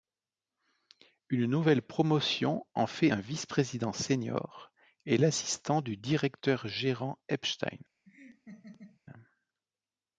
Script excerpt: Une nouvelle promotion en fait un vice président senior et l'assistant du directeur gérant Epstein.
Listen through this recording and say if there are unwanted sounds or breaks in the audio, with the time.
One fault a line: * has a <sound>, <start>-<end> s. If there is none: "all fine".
* has a laugh, 8.1-9.0 s